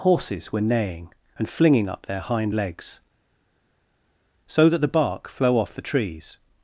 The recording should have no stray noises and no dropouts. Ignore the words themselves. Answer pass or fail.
pass